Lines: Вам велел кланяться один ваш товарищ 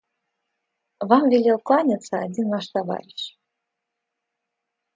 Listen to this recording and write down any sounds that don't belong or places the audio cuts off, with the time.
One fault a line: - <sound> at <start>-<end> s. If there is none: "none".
none